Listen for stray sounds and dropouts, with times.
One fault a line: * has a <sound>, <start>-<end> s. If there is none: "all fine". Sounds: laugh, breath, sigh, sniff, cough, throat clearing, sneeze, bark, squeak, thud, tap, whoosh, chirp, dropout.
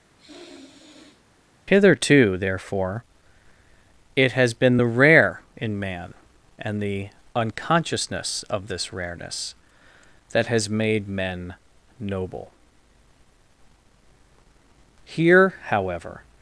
* has a sniff, 0.2-1.2 s